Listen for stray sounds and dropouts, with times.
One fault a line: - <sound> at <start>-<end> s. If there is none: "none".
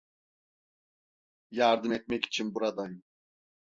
none